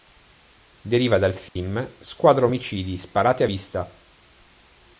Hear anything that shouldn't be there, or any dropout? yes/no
yes